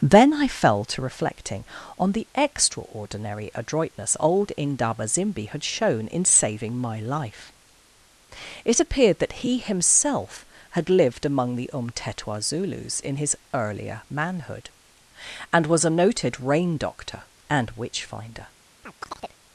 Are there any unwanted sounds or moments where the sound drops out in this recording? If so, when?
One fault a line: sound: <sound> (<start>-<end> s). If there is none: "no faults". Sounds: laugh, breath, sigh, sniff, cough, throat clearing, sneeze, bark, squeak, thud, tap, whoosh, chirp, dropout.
sound: chirp (18.8-19.4 s)